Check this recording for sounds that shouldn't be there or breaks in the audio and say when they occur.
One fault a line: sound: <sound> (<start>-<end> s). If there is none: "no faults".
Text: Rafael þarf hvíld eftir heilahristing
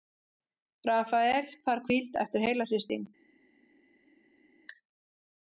no faults